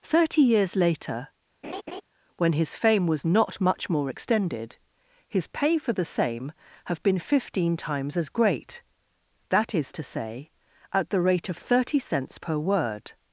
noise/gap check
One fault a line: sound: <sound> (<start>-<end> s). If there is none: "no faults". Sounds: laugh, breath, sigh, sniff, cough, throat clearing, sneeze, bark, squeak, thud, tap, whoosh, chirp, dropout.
sound: laugh (1.6-2.0 s)